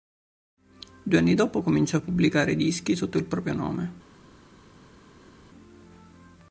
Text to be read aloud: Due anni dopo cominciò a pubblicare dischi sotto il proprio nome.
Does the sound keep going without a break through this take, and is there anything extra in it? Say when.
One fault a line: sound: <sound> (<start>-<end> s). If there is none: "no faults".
no faults